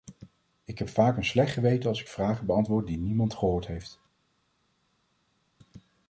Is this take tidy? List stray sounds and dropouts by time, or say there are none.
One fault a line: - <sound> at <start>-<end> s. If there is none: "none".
none